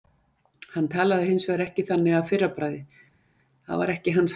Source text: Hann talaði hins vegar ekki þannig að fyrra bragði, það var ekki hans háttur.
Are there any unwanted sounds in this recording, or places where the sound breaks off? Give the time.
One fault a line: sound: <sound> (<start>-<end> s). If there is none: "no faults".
no faults